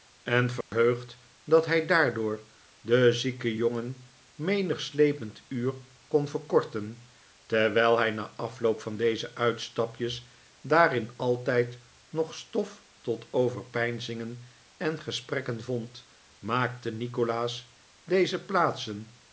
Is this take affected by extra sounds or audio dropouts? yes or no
yes